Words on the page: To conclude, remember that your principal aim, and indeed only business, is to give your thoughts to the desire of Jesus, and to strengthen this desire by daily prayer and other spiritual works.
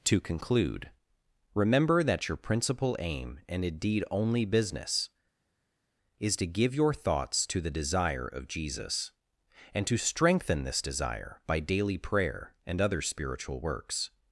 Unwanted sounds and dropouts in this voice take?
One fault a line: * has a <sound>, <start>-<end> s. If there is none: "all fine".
all fine